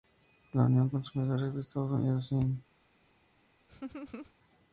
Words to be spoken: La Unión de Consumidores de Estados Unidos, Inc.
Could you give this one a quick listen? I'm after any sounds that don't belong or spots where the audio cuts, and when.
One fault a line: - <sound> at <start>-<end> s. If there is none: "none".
- laugh at 3.7-4.3 s